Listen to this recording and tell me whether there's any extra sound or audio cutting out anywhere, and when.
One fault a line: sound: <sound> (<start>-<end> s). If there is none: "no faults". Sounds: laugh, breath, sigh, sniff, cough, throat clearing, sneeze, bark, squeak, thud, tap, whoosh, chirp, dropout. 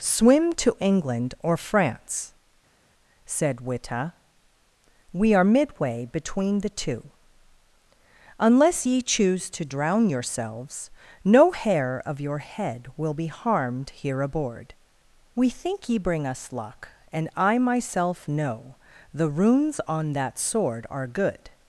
no faults